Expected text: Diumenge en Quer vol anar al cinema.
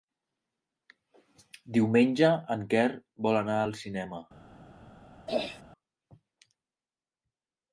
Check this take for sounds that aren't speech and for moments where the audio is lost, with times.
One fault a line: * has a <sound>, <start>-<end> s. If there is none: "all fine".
* has a throat clearing, 5.3-5.6 s